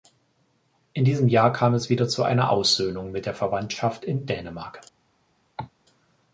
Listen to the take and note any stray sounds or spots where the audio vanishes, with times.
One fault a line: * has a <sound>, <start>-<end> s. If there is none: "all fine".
* has a cough, 5.6-5.7 s